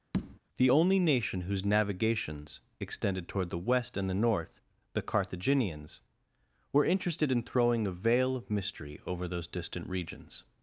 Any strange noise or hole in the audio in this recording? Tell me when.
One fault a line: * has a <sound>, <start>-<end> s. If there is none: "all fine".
* has a tap, 0.1-0.4 s